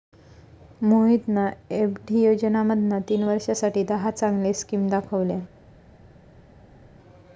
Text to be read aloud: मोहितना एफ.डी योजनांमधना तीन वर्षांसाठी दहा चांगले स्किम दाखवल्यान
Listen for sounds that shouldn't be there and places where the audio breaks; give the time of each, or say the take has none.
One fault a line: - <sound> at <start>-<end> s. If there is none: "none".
none